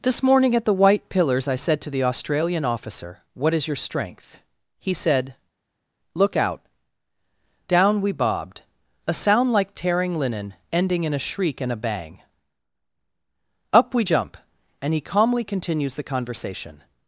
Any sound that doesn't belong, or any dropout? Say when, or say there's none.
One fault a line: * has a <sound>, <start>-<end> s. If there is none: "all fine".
all fine